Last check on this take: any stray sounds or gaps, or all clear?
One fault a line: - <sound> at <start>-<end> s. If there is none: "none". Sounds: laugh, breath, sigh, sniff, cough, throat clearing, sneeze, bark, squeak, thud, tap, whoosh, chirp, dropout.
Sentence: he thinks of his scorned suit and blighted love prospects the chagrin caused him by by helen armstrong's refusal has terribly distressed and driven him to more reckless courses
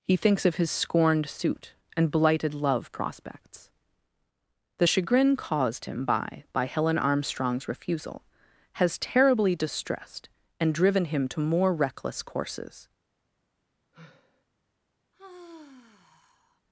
- sigh at 13.9-14.5 s
- sigh at 15.1-16.6 s